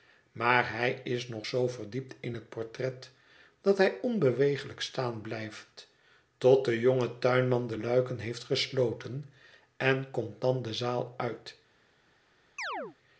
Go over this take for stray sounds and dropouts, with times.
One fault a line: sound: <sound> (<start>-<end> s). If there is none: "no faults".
sound: chirp (12.6-13.0 s)